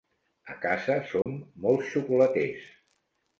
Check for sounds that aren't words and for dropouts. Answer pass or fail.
fail